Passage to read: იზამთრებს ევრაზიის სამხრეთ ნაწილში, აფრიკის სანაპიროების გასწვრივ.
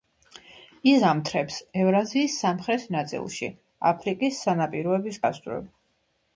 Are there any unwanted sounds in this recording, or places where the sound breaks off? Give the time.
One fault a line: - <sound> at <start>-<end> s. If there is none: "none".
none